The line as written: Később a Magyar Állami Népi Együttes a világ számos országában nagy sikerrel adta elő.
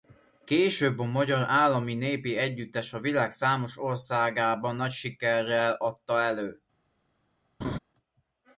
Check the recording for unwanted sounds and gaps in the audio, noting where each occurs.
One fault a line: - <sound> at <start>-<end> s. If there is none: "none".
- laugh at 7.6-7.8 s